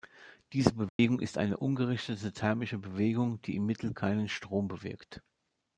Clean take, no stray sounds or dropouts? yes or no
no